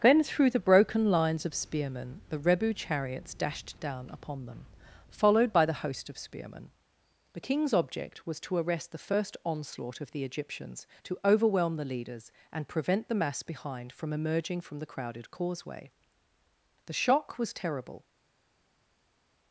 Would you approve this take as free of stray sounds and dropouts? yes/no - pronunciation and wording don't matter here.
yes